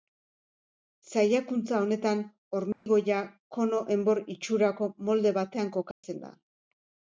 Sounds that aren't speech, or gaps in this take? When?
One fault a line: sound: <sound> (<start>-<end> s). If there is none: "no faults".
sound: dropout (2.7-2.9 s)
sound: dropout (5.9-6.0 s)